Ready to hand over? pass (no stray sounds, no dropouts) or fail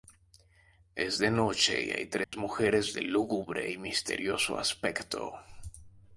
fail